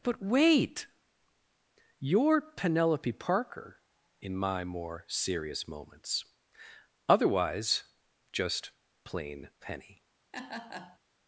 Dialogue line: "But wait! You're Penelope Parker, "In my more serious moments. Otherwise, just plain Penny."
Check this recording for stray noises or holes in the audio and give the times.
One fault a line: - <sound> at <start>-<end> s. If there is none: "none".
- laugh at 10.3-11.0 s